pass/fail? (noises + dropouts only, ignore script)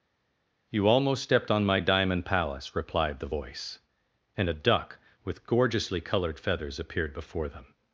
pass